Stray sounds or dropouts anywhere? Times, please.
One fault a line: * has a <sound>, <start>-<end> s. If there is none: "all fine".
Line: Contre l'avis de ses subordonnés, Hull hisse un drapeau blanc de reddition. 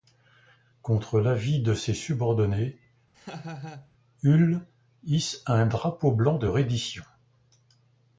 * has a laugh, 3.1-3.9 s